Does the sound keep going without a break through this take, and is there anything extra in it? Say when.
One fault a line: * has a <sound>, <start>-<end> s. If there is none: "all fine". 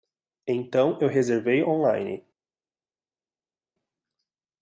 all fine